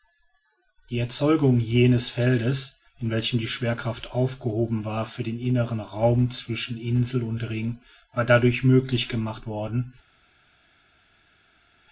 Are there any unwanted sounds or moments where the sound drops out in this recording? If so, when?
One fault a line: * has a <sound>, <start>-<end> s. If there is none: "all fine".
all fine